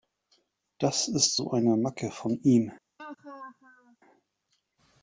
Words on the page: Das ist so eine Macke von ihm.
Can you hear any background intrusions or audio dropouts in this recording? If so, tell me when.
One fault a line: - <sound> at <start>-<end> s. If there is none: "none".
- laugh at 3.0-4.0 s